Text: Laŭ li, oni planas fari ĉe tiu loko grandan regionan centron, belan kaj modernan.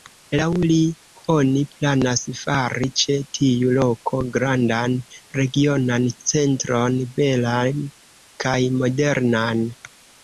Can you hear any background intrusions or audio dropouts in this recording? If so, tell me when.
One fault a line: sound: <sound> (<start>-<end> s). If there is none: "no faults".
no faults